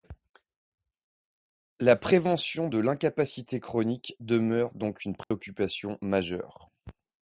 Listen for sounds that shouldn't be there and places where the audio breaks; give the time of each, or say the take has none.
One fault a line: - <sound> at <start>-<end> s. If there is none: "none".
- dropout at 5.2-5.3 s